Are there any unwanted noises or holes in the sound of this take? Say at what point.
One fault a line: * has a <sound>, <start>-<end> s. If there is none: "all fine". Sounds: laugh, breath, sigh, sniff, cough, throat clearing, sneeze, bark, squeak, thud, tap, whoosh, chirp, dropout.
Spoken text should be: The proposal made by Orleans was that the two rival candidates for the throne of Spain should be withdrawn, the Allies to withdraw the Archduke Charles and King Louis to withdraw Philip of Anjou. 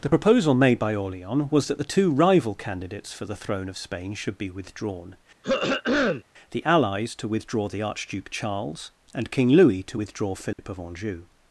* has a throat clearing, 5.4-6.2 s
* has a dropout, 10.5-10.6 s